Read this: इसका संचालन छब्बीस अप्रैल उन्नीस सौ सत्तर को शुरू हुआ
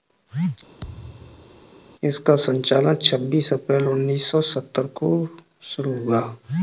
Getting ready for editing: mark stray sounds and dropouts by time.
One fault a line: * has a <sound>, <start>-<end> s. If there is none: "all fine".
* has a thud, 0.8-1.6 s